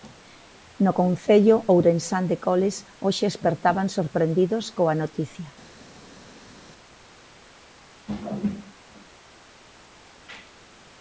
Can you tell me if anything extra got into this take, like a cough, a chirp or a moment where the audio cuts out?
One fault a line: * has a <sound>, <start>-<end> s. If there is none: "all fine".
all fine